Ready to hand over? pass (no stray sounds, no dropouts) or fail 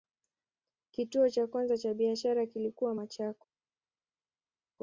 pass